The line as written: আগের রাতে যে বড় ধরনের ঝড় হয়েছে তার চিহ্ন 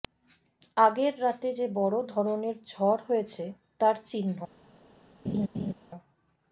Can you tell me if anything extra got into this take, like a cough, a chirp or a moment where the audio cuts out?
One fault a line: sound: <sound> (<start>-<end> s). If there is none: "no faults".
sound: laugh (5.2-5.7 s)